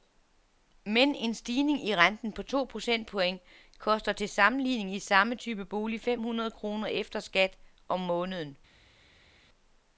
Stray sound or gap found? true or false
false